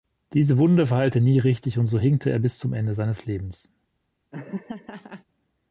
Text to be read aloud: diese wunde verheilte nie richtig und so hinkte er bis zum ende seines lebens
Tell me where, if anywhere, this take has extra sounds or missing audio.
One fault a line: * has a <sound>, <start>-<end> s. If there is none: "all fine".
* has a laugh, 4.3-5.3 s